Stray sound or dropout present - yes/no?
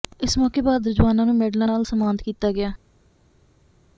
no